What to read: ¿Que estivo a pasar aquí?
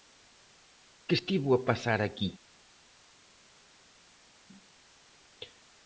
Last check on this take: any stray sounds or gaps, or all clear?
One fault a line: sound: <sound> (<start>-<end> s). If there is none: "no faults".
no faults